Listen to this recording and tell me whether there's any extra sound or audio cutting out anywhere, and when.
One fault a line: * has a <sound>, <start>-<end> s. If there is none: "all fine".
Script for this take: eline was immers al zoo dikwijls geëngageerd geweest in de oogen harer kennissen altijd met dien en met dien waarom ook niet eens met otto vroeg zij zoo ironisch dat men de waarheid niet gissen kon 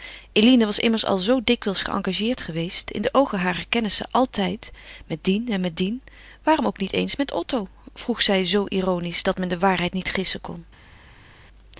all fine